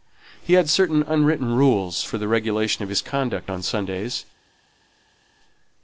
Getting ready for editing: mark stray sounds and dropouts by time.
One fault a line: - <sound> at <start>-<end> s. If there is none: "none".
none